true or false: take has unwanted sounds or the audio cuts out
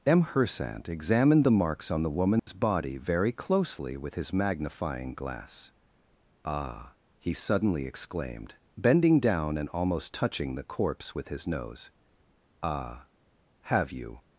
true